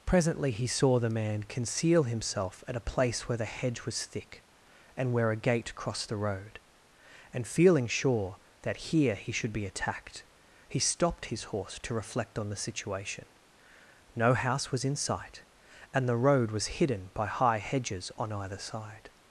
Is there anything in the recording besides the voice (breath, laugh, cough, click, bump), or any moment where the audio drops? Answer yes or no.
no